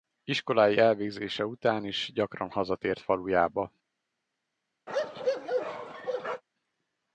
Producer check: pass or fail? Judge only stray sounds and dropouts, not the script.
fail